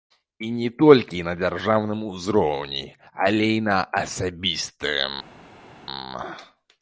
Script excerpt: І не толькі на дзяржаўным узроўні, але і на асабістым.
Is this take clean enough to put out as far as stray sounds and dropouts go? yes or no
yes